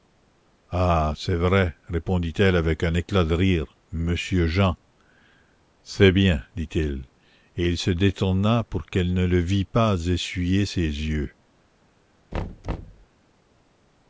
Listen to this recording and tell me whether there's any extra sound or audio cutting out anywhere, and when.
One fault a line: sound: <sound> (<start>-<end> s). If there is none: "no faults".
sound: thud (12.3-13.1 s)